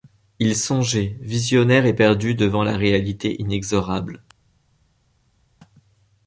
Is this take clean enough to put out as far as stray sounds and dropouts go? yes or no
yes